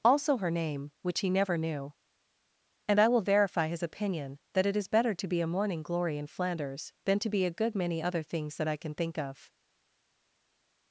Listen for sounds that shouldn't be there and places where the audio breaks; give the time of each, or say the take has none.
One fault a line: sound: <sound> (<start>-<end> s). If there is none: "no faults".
no faults